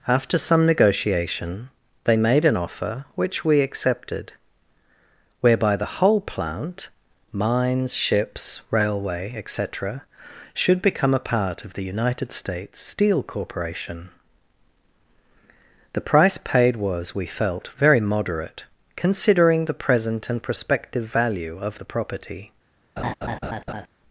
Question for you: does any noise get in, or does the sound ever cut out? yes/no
yes